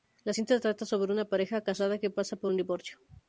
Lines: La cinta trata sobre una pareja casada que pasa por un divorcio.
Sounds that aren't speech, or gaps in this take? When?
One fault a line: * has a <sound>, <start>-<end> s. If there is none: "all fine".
all fine